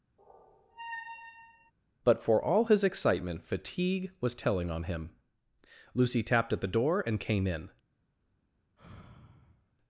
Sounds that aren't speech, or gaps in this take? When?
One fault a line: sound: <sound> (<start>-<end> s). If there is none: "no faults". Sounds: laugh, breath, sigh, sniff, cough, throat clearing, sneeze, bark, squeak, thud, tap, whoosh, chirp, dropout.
sound: squeak (0.2-1.7 s)
sound: sigh (8.8-9.8 s)